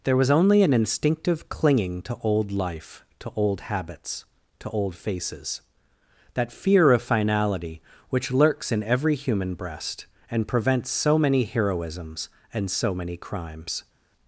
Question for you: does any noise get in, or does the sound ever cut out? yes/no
no